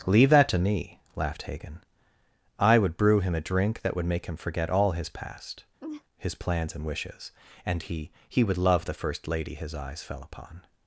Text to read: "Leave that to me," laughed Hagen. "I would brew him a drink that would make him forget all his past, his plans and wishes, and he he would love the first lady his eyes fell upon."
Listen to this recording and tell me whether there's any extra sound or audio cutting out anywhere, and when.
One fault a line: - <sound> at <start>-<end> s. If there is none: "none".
- laugh at 5.8-6.0 s